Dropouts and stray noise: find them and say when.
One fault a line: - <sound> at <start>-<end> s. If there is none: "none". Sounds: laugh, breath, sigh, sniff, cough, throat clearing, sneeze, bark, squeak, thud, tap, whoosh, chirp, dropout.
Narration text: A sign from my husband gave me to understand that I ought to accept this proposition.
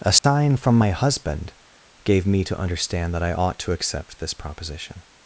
- dropout at 0.2-0.2 s